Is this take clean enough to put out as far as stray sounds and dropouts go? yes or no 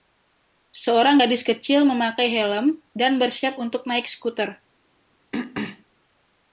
no